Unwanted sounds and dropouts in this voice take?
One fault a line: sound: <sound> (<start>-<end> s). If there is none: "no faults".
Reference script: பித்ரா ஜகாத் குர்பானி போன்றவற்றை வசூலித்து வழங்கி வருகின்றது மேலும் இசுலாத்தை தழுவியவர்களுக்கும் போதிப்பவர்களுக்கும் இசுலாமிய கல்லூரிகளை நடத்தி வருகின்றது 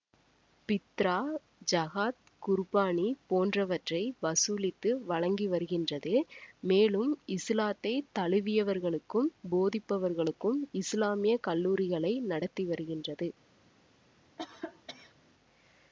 sound: cough (14.4-15.1 s)